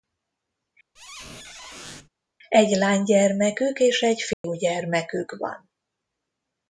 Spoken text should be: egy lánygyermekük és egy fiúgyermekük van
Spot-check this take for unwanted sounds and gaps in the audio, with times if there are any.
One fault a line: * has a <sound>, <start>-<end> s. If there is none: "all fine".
* has a squeak, 1.0-2.1 s
* has a dropout, 4.3-4.4 s